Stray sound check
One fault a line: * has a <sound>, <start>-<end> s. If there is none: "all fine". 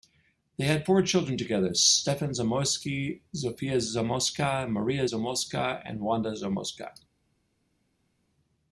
all fine